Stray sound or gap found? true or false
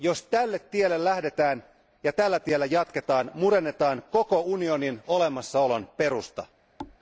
true